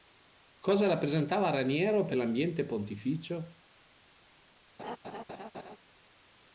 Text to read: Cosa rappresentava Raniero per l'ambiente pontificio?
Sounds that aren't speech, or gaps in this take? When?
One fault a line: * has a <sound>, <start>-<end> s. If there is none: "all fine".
* has a laugh, 4.8-5.8 s